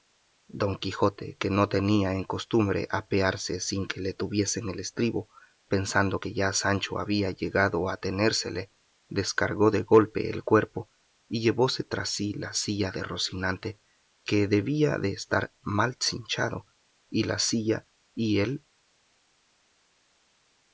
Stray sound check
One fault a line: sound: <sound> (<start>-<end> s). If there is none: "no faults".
no faults